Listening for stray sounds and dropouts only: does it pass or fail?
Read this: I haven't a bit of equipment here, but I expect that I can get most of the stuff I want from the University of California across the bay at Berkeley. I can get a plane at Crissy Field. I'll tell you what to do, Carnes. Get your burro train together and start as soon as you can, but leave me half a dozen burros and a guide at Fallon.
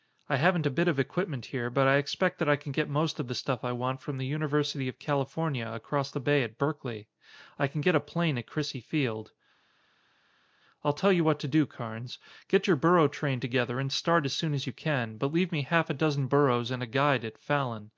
pass